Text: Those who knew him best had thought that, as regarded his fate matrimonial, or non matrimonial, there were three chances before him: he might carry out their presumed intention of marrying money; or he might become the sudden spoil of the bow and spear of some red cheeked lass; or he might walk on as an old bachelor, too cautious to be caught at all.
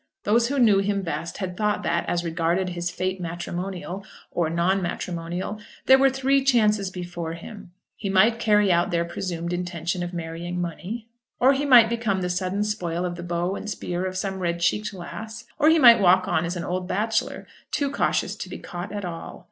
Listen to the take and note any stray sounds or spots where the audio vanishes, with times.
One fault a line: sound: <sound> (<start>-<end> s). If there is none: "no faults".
no faults